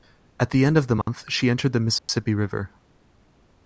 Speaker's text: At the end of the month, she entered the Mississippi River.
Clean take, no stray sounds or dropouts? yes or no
no